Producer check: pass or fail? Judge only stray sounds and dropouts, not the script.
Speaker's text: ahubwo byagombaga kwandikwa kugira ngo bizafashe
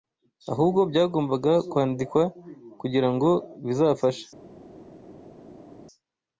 pass